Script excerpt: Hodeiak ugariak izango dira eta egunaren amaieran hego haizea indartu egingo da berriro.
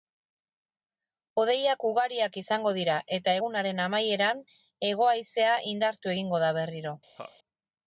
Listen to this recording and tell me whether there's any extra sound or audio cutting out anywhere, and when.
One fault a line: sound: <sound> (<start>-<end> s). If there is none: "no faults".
sound: laugh (7.2-7.4 s)